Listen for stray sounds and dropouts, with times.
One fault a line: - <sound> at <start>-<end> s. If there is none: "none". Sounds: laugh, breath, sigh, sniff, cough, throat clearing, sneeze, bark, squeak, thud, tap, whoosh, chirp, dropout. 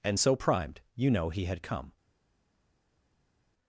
none